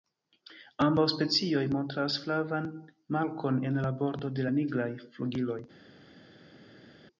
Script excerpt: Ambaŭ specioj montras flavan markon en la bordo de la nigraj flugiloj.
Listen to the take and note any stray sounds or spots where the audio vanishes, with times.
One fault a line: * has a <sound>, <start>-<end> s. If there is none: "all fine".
all fine